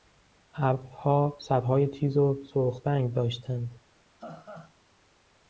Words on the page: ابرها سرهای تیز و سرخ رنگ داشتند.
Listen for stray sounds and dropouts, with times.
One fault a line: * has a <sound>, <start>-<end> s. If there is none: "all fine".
* has a laugh, 4.2-4.7 s